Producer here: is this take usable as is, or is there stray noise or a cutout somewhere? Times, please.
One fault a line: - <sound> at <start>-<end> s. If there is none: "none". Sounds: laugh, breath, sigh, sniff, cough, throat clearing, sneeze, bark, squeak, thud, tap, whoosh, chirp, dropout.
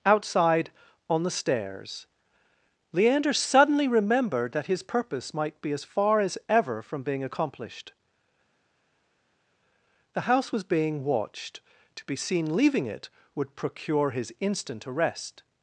none